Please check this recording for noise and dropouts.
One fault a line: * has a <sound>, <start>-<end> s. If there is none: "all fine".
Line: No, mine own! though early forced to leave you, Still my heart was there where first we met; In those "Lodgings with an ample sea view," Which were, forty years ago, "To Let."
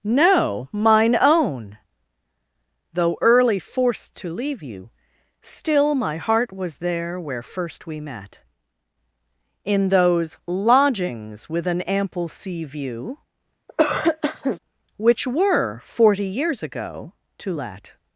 * has a cough, 13.7-14.6 s